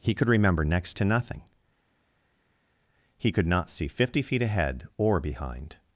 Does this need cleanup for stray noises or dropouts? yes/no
no